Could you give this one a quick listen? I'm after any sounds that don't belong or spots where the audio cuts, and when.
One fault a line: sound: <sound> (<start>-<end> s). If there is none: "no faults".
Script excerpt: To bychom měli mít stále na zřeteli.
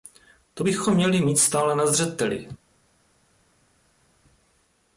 no faults